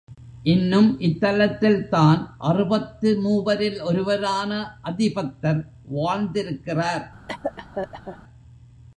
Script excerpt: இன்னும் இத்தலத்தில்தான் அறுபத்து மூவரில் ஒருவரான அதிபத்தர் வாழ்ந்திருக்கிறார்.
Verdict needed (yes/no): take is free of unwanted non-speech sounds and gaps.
no